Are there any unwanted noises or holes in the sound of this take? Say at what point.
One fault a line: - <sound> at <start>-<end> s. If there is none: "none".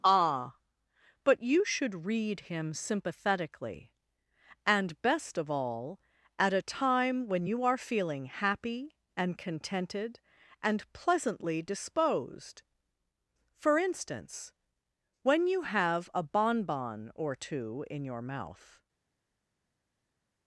none